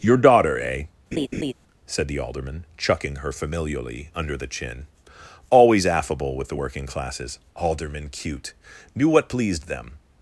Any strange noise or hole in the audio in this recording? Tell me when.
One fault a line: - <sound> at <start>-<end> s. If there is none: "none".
- laugh at 1.1-1.5 s